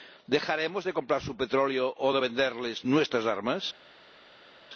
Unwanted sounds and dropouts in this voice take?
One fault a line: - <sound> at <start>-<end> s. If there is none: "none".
none